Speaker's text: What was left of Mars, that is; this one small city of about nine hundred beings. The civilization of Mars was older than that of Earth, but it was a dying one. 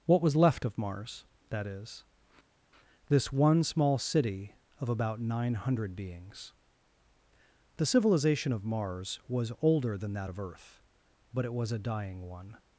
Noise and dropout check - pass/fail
pass